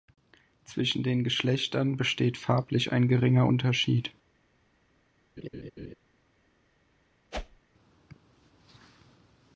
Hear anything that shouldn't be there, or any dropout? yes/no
yes